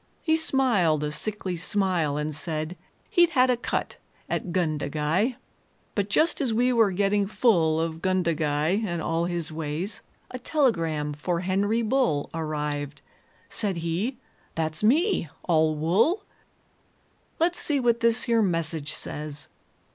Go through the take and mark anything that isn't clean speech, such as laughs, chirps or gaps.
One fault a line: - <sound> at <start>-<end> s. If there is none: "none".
none